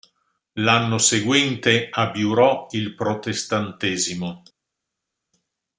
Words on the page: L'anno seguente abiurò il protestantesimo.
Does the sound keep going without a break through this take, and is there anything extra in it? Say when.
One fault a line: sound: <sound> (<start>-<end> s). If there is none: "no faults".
no faults